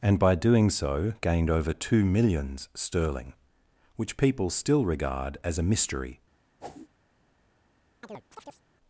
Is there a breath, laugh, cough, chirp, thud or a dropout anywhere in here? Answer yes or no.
yes